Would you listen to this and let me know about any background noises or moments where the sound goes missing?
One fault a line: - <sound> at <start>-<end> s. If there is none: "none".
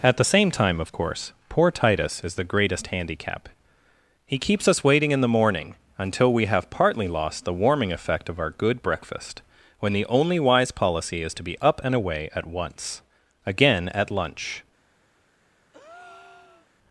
- breath at 15.7-16.7 s